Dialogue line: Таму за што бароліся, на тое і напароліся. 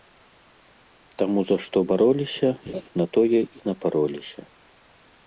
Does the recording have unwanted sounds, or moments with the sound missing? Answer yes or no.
yes